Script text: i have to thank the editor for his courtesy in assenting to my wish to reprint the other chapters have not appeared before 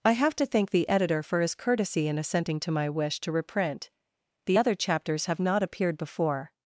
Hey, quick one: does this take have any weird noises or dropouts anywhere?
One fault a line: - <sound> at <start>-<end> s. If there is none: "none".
none